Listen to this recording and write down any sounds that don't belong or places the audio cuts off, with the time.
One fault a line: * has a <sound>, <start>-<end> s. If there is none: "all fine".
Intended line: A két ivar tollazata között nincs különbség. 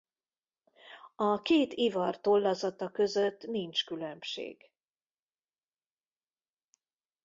all fine